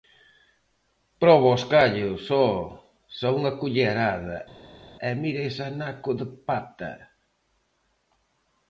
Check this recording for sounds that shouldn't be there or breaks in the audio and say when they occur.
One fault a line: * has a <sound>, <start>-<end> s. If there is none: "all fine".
all fine